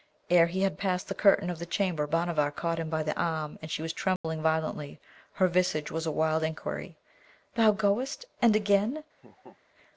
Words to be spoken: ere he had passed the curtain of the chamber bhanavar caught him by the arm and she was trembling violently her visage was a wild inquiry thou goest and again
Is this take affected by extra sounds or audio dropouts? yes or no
yes